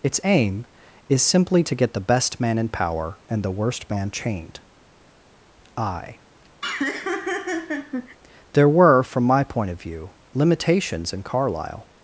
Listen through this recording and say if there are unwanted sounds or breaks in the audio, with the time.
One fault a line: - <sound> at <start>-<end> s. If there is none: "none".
- laugh at 6.6-8.2 s